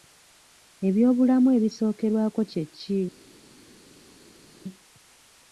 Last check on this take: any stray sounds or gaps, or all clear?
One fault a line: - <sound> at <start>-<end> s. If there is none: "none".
none